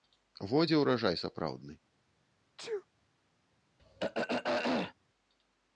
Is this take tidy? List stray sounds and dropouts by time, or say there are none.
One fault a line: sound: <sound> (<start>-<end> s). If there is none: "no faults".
sound: sneeze (2.6-2.9 s)
sound: throat clearing (3.8-4.9 s)